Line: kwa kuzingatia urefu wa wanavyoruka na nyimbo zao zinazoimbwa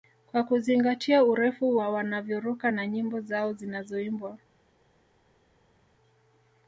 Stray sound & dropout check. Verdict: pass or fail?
pass